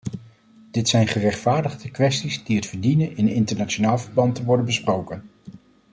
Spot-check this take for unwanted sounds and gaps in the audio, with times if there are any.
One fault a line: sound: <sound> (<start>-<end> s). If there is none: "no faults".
no faults